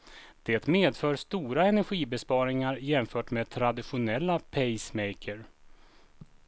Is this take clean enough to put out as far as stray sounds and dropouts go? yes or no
yes